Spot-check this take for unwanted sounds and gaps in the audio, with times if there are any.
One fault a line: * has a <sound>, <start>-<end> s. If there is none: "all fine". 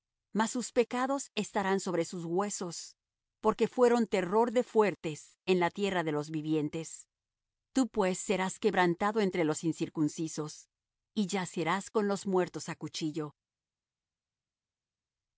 all fine